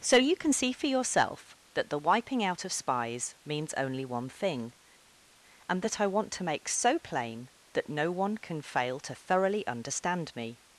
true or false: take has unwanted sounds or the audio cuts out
false